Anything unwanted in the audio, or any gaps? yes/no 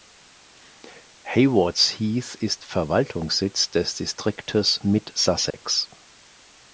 yes